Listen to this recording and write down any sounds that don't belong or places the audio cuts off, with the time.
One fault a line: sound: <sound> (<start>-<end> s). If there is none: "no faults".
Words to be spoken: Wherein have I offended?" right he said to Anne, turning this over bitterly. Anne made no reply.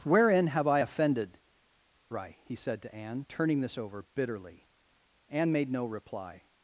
no faults